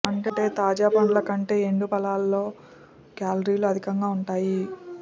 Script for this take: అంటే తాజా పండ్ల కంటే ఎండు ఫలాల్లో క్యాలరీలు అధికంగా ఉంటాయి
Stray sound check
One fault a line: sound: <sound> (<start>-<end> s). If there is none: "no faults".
no faults